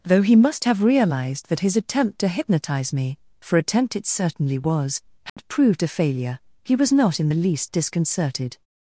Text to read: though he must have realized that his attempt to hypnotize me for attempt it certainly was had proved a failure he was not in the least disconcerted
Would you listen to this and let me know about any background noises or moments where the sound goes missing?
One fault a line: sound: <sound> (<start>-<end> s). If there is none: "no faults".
sound: dropout (5.3-5.4 s)